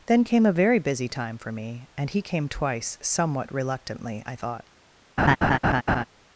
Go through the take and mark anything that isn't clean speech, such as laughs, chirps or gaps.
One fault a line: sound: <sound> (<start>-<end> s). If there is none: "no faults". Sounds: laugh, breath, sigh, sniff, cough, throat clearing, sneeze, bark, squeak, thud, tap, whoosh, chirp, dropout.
sound: laugh (5.2-6.0 s)